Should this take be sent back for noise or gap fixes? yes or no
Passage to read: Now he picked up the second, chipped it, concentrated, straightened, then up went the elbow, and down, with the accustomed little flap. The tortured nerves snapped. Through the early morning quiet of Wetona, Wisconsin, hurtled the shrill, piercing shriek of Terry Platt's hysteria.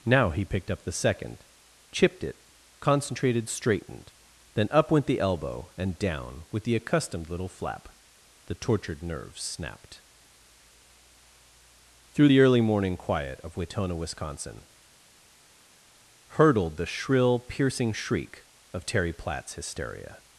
no